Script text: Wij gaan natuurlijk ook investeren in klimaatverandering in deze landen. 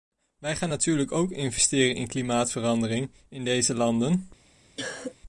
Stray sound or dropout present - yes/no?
yes